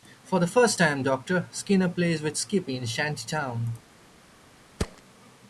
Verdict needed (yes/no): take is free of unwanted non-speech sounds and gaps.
no